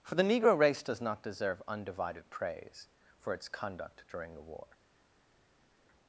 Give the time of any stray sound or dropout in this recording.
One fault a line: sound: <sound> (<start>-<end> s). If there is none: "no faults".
no faults